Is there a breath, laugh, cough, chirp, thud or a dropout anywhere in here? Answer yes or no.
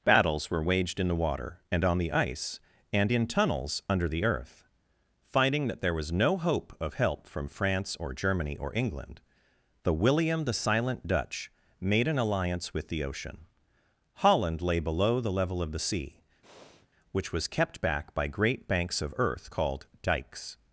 yes